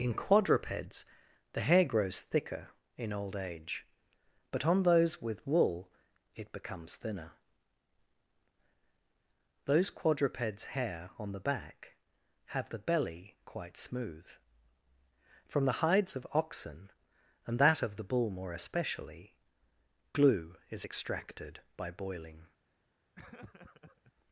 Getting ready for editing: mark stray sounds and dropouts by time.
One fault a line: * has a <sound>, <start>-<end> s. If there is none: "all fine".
* has a laugh, 23.2-24.1 s